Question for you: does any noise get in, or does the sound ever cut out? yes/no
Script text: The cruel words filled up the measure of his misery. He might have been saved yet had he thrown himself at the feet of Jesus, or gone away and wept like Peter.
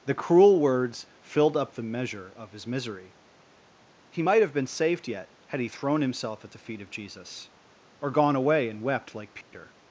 yes